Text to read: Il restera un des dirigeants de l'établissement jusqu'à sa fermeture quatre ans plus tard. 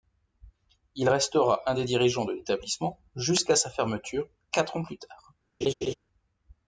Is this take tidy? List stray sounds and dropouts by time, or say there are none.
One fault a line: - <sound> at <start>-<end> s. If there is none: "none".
- laugh at 5.6-5.9 s